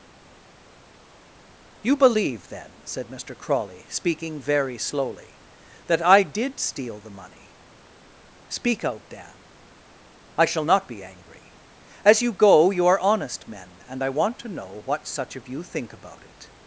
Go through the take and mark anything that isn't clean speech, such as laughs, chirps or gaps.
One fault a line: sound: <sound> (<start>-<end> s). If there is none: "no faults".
no faults